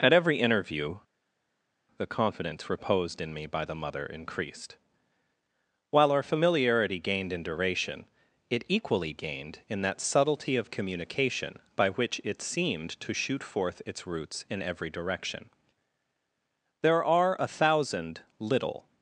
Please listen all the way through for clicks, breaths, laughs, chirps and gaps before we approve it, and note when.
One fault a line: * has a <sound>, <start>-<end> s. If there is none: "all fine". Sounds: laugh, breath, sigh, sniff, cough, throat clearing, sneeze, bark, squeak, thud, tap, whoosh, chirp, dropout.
all fine